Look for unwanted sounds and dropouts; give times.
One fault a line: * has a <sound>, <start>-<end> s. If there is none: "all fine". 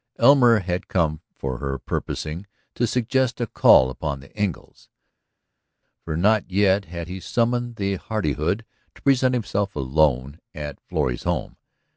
all fine